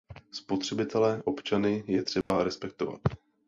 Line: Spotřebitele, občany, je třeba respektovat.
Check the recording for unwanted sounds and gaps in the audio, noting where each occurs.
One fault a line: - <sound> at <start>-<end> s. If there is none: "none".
- dropout at 2.2-2.3 s